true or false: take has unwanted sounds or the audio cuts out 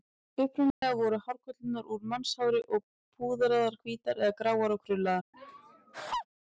true